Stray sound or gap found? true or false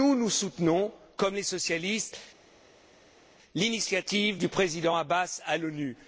false